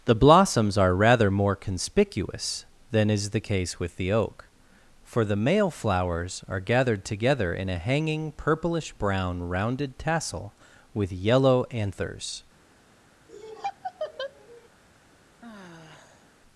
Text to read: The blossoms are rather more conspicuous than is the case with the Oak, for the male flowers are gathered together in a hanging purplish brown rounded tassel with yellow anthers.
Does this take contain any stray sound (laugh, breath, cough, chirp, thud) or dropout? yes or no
yes